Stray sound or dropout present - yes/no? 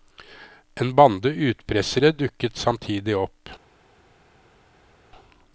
no